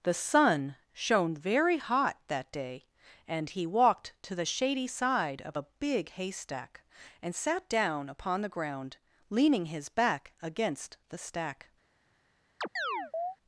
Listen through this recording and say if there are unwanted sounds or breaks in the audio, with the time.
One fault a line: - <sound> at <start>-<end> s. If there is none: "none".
- chirp at 12.6-13.4 s